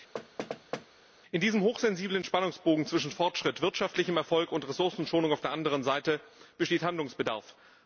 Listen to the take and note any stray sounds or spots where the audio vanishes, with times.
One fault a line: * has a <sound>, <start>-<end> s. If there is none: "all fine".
* has a thud, 0.1-0.9 s